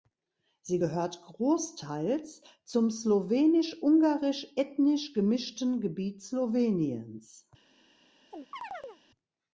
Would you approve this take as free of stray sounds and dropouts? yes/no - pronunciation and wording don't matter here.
no